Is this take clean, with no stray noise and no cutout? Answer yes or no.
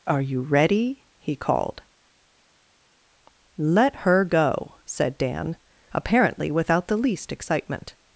yes